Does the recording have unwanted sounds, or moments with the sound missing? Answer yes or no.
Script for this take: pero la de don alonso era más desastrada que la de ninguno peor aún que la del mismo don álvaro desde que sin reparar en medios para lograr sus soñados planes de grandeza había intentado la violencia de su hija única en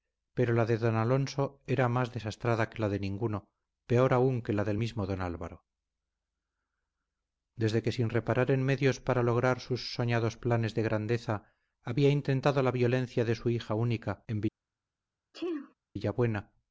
yes